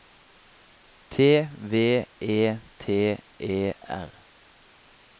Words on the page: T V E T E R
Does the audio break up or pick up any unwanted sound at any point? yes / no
no